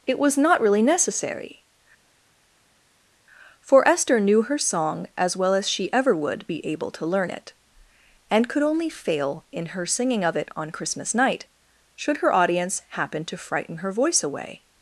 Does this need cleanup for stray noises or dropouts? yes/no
no